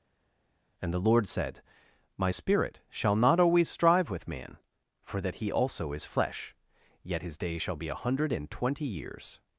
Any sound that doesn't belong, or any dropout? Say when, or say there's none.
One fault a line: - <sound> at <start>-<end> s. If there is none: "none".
none